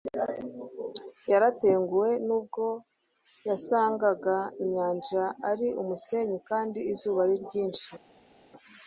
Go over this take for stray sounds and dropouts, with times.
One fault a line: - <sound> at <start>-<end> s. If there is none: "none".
none